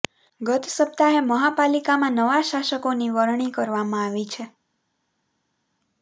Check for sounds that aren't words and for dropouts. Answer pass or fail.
pass